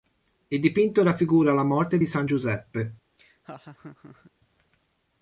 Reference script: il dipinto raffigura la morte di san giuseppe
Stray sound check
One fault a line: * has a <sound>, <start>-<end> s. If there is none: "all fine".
* has a laugh, 3.2-4.3 s